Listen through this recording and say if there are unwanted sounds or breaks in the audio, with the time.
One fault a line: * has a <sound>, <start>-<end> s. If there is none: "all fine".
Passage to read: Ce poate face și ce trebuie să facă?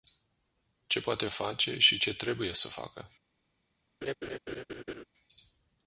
* has a laugh, 4.0-5.0 s